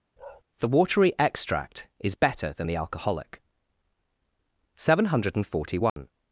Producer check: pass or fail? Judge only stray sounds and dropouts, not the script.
fail